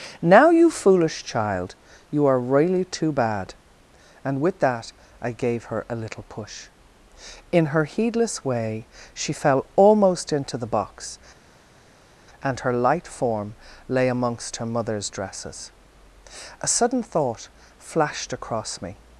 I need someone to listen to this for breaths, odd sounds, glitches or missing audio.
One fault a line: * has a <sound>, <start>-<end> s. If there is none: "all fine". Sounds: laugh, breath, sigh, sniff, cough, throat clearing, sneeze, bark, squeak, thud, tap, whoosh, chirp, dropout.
all fine